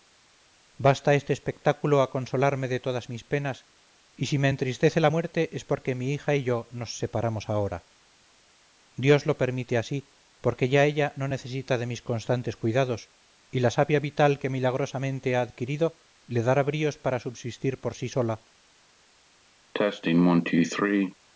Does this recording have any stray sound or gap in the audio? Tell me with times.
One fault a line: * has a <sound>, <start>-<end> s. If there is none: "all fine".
* has a cough, 19.7-21.1 s